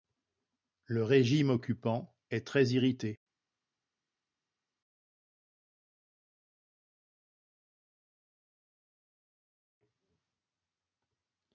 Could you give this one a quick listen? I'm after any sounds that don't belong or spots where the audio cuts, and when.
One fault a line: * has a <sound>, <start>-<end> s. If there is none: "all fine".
all fine